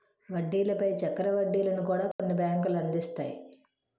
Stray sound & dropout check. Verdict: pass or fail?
fail